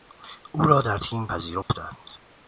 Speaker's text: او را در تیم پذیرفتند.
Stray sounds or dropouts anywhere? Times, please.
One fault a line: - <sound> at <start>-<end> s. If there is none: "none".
- dropout at 1.6-1.7 s